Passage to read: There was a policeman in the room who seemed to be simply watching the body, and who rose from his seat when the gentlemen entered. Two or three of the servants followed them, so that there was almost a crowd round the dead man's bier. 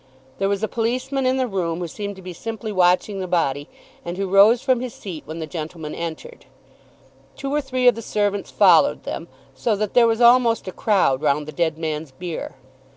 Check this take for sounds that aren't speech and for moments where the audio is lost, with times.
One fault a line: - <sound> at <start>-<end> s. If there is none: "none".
none